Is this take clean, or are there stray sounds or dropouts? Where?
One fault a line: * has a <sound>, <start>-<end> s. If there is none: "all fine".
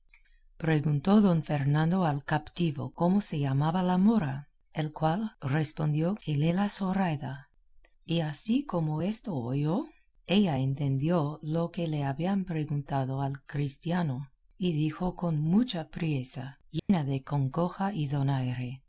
* has a dropout, 16.8-16.9 s